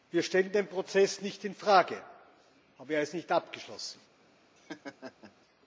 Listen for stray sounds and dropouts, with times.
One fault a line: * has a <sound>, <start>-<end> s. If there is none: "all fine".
* has a laugh, 4.6-5.3 s